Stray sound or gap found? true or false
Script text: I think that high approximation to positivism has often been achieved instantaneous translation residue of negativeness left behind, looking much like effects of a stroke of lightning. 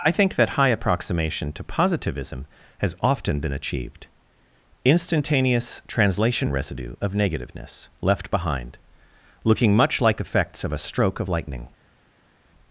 false